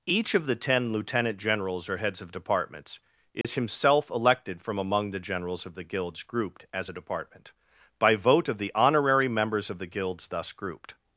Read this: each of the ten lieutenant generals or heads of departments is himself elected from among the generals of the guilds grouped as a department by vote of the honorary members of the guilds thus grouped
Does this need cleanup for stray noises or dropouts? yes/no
yes